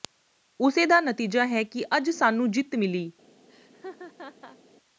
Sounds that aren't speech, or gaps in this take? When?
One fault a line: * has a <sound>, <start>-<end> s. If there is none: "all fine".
* has a laugh, 3.5-4.6 s